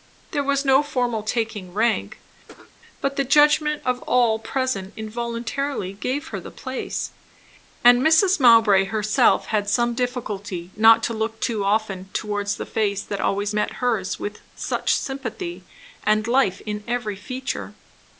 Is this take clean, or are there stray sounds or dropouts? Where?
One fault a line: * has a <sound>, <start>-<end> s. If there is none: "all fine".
* has a cough, 2.5-2.7 s